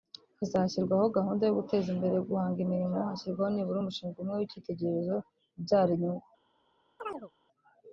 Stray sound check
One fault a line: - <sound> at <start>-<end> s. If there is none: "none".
- chirp at 7.0-7.3 s